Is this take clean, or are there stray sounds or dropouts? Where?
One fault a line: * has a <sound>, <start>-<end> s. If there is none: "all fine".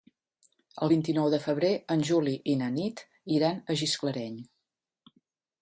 all fine